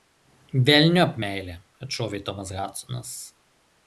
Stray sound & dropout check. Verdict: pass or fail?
pass